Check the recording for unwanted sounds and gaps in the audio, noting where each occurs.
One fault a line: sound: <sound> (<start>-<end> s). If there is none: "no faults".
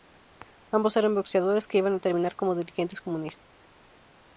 no faults